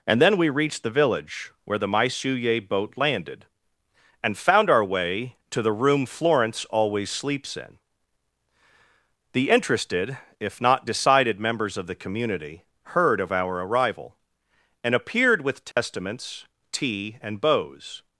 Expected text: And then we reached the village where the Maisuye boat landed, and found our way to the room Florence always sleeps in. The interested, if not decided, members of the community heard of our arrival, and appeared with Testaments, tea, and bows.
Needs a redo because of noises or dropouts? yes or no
yes